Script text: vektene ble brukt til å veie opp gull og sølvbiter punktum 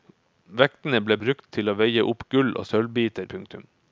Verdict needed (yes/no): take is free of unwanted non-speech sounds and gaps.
yes